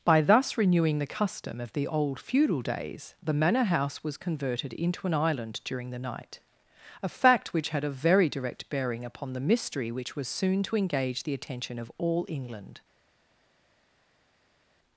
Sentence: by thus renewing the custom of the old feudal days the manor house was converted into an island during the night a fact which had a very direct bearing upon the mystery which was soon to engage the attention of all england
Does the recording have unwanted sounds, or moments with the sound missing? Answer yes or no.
no